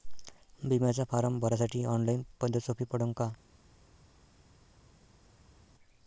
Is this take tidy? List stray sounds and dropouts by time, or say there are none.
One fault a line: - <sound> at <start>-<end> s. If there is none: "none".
none